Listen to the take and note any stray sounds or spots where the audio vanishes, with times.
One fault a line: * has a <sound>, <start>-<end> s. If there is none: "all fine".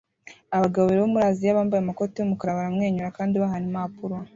all fine